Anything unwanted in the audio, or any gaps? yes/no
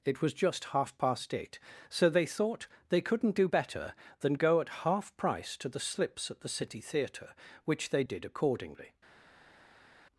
no